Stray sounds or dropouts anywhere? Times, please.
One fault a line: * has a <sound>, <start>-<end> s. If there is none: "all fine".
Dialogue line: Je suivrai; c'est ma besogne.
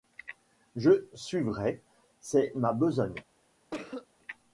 * has a cough, 3.7-4.1 s